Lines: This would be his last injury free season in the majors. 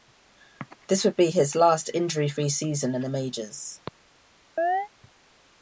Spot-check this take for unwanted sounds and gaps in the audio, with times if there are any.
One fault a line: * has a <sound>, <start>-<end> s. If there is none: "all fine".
* has a chirp, 4.6-4.9 s